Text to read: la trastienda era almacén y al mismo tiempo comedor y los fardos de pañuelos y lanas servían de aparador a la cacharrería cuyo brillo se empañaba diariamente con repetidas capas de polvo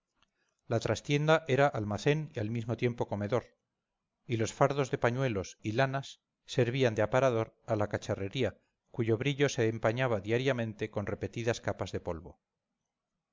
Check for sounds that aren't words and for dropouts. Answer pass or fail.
pass